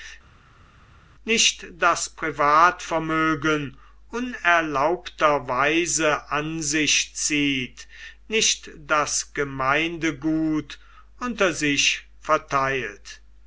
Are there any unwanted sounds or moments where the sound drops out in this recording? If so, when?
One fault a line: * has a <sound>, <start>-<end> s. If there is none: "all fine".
all fine